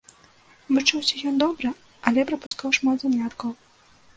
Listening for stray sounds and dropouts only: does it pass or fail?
fail